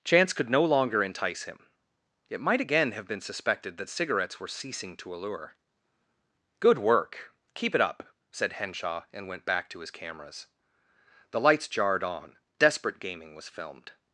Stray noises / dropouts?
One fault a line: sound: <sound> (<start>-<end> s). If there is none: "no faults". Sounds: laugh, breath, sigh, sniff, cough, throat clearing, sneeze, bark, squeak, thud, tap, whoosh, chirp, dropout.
no faults